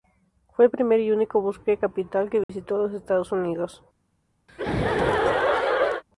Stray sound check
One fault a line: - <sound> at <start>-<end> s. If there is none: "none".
- dropout at 2.4-2.5 s
- laugh at 4.5-6.0 s